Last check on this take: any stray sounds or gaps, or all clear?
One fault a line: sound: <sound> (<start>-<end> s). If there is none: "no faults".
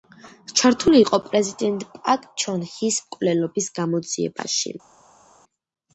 no faults